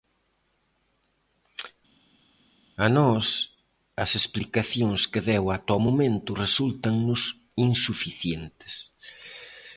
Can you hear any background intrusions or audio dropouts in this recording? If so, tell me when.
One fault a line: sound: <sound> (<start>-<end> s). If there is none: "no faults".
no faults